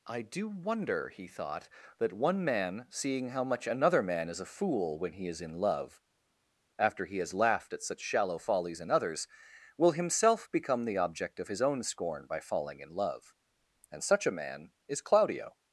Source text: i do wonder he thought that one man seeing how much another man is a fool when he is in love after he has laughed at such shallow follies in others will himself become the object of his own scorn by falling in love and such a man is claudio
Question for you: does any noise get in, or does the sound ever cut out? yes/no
no